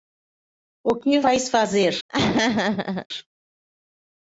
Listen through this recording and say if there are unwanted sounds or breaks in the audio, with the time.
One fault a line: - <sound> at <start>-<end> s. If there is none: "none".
- laugh at 2.1-3.1 s